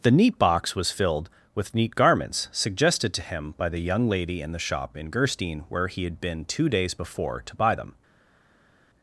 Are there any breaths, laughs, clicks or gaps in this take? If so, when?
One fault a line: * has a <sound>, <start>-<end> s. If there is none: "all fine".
all fine